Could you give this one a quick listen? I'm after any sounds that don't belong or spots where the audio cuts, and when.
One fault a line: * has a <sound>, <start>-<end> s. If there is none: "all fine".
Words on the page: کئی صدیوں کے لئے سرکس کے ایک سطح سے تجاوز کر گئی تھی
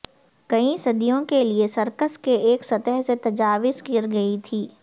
all fine